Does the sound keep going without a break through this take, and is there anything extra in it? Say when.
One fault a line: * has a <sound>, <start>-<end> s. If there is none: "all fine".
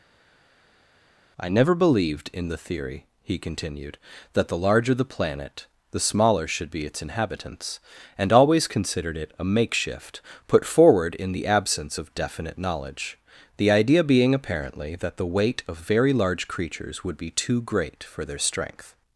all fine